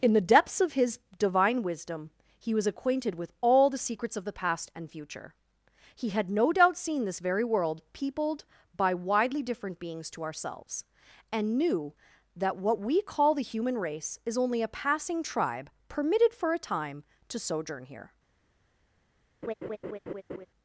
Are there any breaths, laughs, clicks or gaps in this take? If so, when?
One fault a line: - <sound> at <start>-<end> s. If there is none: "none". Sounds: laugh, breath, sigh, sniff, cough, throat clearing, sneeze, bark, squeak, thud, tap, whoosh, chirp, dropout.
- laugh at 19.4-20.5 s